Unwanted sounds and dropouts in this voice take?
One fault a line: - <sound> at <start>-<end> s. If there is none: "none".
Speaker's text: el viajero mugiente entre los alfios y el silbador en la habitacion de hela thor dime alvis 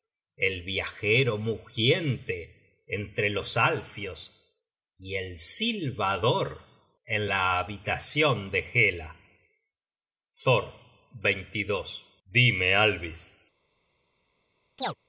- chirp at 14.8-15.0 s